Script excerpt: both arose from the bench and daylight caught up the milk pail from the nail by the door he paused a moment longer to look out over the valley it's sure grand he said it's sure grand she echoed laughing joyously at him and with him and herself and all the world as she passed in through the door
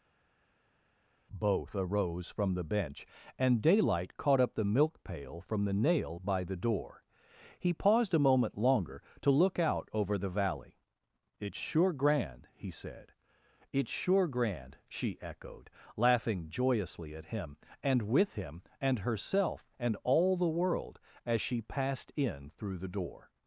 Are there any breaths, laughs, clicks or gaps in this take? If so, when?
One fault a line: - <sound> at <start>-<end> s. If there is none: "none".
none